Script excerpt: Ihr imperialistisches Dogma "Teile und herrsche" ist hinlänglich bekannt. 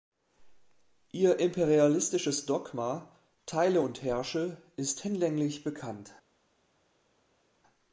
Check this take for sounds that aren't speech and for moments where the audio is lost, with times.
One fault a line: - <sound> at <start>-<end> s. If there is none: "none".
none